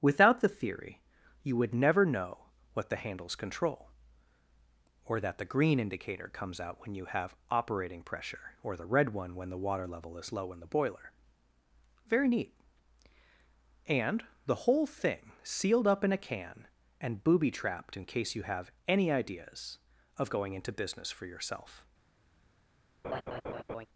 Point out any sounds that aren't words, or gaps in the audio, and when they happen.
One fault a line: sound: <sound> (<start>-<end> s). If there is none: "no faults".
sound: laugh (23.0-23.9 s)